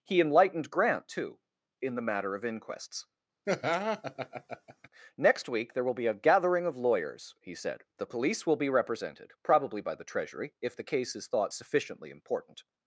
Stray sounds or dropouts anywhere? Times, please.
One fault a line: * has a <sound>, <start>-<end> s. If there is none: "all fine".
* has a laugh, 3.5-4.9 s